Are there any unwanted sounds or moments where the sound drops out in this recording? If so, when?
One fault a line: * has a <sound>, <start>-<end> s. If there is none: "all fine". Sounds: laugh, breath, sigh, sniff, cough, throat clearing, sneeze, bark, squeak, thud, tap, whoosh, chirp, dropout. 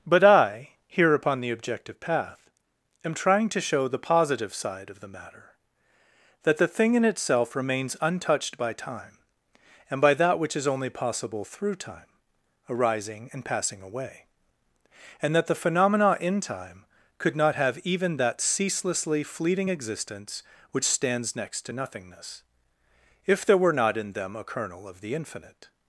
all fine